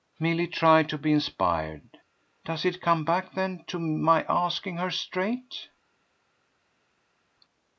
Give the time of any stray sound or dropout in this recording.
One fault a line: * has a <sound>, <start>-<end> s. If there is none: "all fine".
all fine